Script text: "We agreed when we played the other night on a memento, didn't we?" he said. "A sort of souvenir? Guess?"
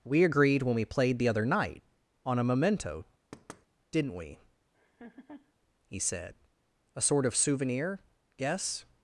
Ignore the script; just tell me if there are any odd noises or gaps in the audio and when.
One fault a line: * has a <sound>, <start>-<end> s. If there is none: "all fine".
* has a thud, 3.3-3.7 s
* has a laugh, 4.7-5.5 s